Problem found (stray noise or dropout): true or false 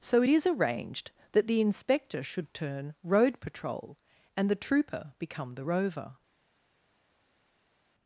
false